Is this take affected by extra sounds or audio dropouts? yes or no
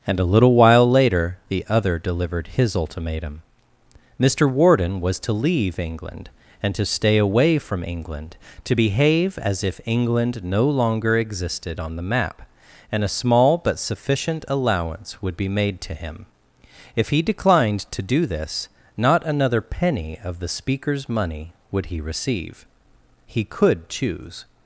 no